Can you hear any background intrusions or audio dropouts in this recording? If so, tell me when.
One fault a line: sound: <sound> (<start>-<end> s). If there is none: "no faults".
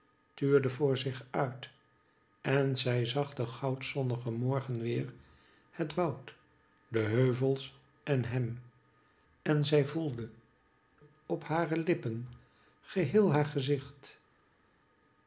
no faults